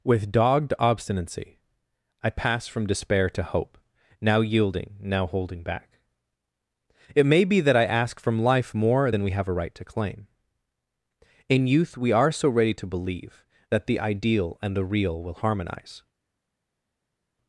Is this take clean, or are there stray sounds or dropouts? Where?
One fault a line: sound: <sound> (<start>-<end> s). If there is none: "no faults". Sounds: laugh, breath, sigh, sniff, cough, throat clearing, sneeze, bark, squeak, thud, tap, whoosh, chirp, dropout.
no faults